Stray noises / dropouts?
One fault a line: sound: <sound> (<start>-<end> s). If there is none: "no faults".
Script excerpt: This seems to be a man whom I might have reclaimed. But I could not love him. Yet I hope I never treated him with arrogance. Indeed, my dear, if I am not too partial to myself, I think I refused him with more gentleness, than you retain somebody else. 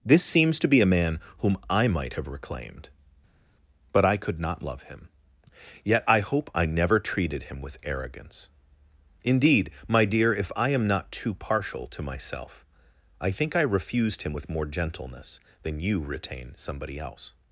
no faults